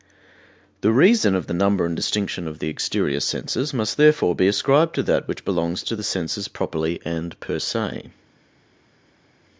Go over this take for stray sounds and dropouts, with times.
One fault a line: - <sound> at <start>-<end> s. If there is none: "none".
none